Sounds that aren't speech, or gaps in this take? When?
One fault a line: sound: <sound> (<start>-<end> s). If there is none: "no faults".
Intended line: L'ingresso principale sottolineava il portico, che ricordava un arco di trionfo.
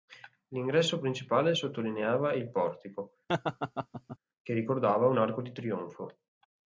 sound: laugh (3.3-4.2 s)